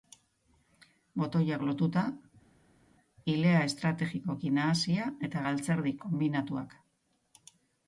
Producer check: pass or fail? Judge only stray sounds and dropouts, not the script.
pass